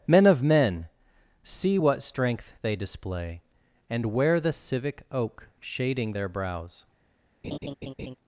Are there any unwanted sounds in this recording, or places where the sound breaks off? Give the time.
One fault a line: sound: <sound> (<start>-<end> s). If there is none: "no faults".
sound: laugh (7.4-8.2 s)